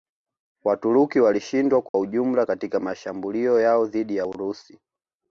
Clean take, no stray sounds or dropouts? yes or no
no